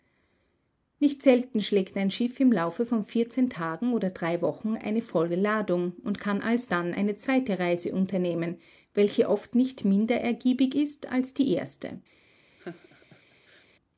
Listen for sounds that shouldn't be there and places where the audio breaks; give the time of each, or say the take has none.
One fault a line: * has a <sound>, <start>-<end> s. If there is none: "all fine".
* has a laugh, 12.6-13.7 s